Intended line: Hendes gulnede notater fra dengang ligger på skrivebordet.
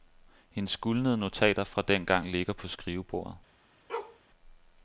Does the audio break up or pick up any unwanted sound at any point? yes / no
yes